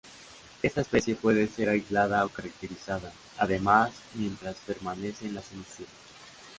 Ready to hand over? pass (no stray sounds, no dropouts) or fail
pass